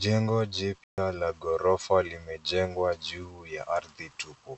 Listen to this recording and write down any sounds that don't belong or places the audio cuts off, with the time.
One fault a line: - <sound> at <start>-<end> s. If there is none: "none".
- dropout at 0.8-1.0 s